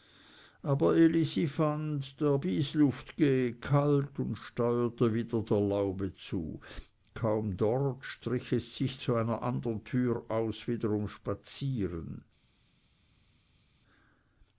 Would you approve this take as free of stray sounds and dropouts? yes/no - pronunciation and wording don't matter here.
yes